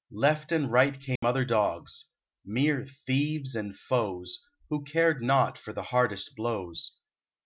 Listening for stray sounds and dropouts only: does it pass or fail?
fail